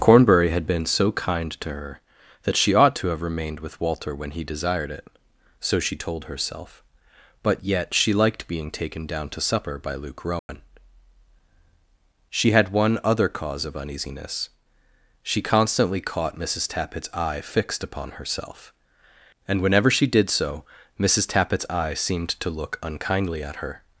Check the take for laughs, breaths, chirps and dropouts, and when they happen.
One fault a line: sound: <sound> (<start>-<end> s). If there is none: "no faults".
sound: dropout (10.4-10.5 s)